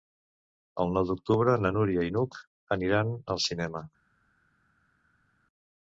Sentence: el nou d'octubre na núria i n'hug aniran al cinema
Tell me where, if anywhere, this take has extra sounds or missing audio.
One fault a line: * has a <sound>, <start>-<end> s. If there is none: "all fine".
all fine